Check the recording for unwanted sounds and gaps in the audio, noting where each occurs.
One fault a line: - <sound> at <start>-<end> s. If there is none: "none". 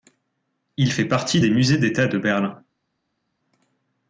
none